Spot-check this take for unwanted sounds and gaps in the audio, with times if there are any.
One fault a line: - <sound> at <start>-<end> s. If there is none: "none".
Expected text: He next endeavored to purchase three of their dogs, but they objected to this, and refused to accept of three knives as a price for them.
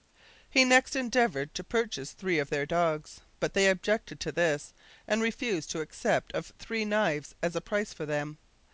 none